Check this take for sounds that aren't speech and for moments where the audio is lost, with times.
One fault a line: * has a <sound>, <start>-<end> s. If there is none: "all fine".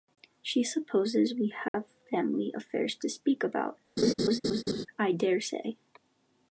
* has a dropout, 1.7-1.7 s
* has a laugh, 4.0-4.9 s